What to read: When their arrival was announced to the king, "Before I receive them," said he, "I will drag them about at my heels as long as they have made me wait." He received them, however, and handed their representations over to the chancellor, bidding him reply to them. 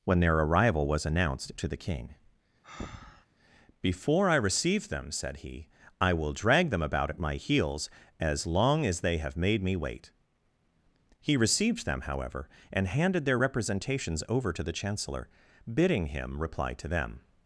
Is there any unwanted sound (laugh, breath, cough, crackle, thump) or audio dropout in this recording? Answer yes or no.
yes